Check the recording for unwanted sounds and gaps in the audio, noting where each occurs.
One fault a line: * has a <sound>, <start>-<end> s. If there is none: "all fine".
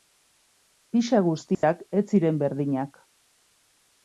* has a dropout, 1.5-1.6 s